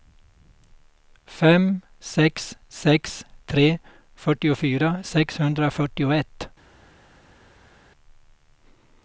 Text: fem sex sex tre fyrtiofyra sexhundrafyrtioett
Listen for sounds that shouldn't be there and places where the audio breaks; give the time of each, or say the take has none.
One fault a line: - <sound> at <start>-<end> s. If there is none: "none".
none